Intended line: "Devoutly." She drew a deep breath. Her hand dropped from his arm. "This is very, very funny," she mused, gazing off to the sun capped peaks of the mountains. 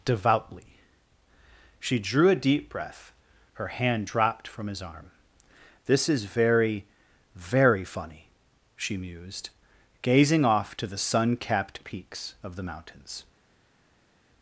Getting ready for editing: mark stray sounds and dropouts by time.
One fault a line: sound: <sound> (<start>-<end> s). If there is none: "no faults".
no faults